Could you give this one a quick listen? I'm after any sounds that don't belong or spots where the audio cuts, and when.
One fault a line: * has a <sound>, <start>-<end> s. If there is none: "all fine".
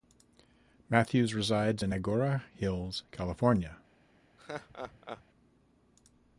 * has a laugh, 4.4-5.2 s